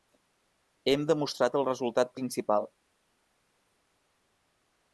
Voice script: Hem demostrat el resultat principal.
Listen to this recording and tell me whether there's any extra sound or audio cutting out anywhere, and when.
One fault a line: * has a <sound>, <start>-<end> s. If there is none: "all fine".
all fine